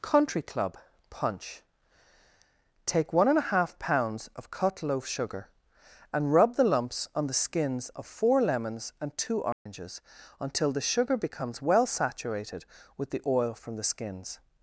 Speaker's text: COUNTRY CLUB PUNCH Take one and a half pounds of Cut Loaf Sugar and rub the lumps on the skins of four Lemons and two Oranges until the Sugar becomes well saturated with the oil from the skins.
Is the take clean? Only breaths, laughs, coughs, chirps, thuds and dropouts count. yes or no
no